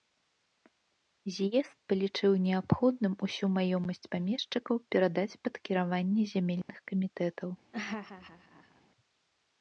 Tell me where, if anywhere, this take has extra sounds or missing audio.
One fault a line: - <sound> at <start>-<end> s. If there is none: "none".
- dropout at 6.6-6.7 s
- laugh at 7.7-8.8 s